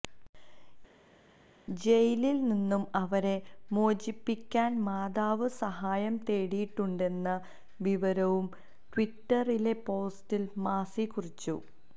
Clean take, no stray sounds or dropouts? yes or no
yes